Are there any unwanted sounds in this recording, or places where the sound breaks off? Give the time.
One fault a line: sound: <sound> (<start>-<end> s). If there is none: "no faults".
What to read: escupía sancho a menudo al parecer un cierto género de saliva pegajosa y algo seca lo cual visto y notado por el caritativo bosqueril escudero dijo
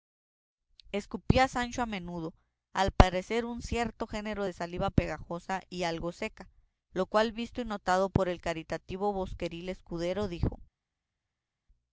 no faults